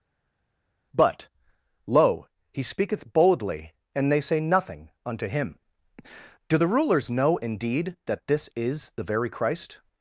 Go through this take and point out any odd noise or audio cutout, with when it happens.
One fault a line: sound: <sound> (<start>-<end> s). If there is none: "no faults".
no faults